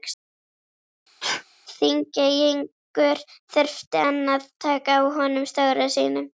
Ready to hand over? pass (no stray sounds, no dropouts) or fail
fail